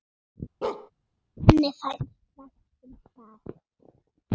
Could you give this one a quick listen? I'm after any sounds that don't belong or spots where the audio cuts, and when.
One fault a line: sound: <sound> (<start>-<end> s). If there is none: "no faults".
sound: bark (0.6-0.9 s)